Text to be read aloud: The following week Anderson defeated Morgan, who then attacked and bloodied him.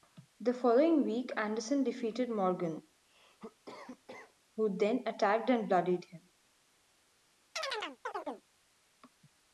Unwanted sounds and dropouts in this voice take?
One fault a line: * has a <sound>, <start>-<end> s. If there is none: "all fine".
* has a cough, 3.0-4.4 s
* has a chirp, 7.6-8.4 s